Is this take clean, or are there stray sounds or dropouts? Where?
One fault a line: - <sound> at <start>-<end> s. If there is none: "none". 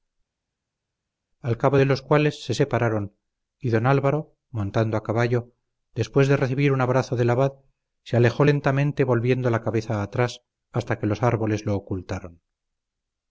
none